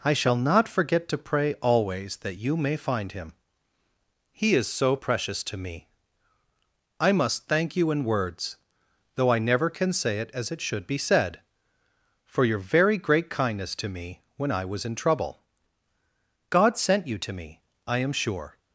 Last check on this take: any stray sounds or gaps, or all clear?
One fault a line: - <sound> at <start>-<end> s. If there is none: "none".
none